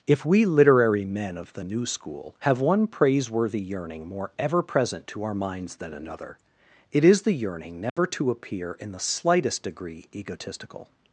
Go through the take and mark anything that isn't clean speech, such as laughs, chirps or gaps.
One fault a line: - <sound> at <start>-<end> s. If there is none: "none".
- dropout at 7.9-8.0 s